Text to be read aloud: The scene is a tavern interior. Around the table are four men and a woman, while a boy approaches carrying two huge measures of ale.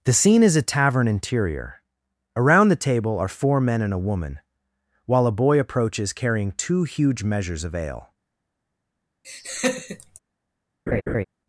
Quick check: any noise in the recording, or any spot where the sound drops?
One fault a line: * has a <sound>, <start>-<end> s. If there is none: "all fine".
* has a laugh, 9.2-10.2 s
* has a laugh, 10.9-11.2 s